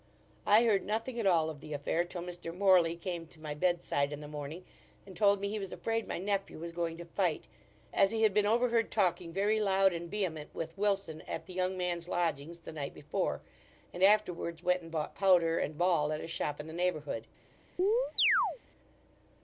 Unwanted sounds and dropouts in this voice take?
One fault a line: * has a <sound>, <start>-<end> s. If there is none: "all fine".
* has a chirp, 17.8-18.6 s